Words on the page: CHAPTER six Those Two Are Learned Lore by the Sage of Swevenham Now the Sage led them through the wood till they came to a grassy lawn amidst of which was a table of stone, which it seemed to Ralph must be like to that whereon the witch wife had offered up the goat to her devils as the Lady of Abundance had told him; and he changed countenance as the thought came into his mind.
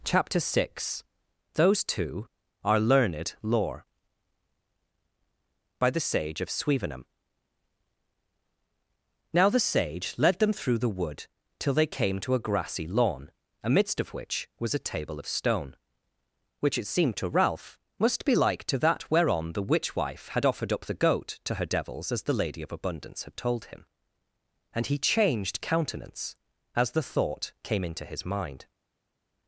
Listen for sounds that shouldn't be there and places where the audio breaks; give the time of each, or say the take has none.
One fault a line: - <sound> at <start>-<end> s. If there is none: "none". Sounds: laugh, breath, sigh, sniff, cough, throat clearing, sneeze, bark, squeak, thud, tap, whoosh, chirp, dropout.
none